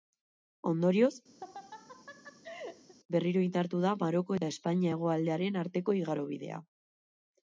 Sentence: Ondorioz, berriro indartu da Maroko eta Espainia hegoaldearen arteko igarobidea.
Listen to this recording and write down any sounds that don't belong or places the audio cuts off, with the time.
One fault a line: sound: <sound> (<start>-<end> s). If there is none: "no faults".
sound: laugh (1.4-2.9 s)